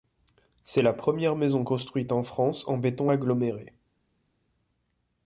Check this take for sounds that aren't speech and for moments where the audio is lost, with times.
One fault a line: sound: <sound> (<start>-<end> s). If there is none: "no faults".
no faults